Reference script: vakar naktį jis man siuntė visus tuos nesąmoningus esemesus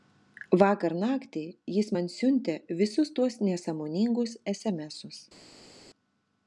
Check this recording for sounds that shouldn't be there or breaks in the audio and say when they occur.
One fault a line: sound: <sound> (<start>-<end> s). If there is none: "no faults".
no faults